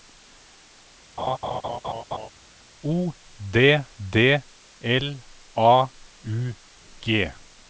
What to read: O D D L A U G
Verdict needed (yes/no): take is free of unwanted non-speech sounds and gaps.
no